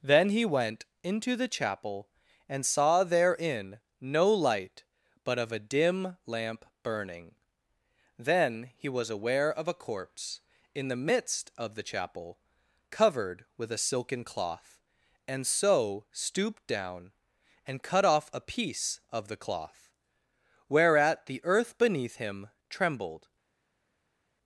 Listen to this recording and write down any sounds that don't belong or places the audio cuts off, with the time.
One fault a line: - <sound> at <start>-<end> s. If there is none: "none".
none